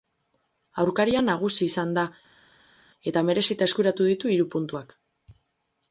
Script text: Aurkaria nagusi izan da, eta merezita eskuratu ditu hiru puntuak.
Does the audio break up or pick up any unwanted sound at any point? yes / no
no